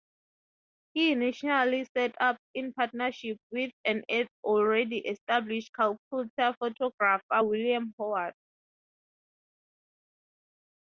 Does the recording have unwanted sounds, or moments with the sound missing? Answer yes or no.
no